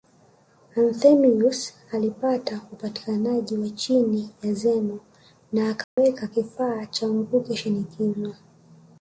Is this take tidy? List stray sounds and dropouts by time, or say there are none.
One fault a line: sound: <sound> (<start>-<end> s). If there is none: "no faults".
sound: dropout (5.8-6.0 s)